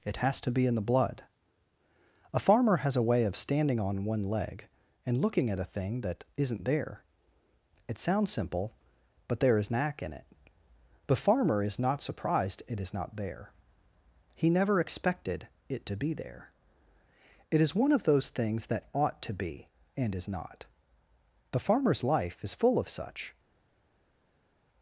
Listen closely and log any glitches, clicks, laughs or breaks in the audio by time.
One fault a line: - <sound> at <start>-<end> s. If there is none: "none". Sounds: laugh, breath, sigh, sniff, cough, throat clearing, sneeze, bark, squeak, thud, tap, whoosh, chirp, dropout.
none